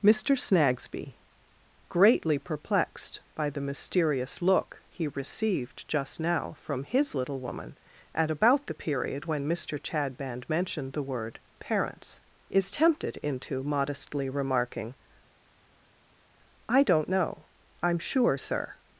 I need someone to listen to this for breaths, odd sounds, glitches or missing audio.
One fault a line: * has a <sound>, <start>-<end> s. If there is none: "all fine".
all fine